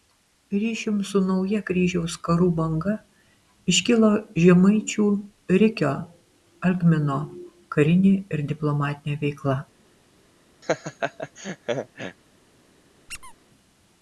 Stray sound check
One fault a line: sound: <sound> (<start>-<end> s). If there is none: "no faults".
sound: laugh (10.6-12.2 s)
sound: squeak (13.1-13.3 s)